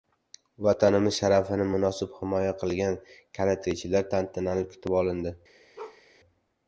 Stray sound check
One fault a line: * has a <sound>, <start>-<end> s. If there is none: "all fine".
* has a bark, 5.8-6.0 s